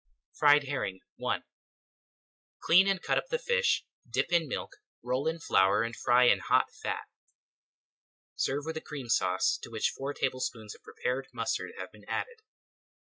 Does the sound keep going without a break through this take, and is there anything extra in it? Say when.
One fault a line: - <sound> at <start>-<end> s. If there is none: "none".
none